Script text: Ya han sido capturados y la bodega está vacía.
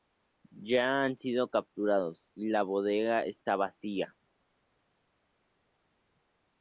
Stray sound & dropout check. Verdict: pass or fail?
pass